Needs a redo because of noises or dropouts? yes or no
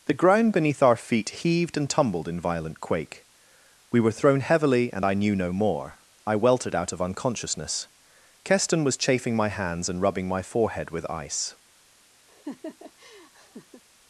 yes